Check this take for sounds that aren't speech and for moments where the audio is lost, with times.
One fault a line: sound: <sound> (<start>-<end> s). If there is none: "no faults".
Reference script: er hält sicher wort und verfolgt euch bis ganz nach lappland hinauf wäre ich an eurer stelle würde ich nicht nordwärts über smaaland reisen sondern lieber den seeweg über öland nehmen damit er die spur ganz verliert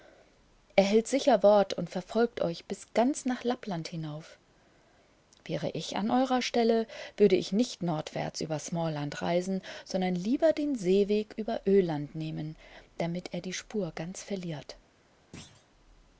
sound: thud (15.3-15.7 s)